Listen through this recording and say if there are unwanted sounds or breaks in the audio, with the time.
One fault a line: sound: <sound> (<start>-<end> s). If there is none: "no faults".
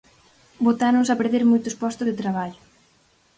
no faults